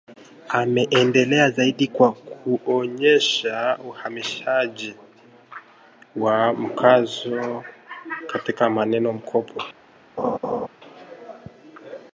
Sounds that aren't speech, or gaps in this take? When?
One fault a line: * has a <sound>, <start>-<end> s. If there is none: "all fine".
* has a laugh, 10.2-10.7 s